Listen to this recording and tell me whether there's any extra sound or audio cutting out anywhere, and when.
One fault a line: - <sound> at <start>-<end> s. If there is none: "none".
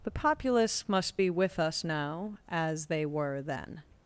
none